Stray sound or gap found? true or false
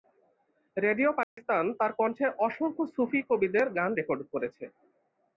true